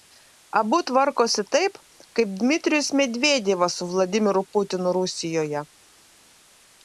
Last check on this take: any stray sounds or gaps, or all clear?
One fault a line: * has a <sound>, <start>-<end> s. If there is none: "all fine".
all fine